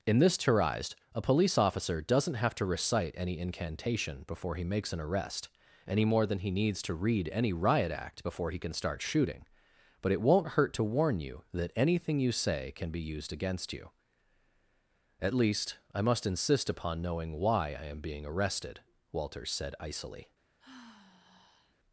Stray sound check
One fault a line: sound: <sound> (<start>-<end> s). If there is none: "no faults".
sound: sigh (20.6-21.7 s)